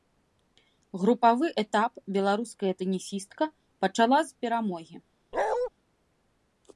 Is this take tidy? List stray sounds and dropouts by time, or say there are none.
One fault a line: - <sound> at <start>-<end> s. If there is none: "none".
- bark at 5.3-5.7 s